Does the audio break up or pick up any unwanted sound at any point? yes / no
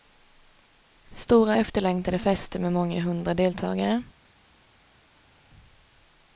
no